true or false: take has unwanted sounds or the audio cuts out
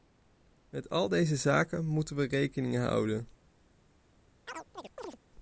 true